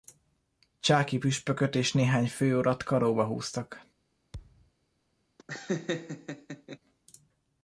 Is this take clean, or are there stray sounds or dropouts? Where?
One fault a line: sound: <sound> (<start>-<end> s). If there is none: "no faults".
sound: thud (4.3-4.7 s)
sound: laugh (5.4-6.8 s)